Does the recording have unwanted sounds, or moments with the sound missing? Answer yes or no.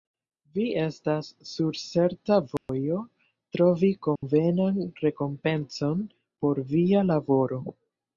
yes